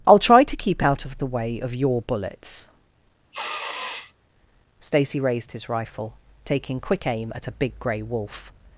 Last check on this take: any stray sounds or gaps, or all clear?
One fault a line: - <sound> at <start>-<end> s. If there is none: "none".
- sniff at 3.3-4.1 s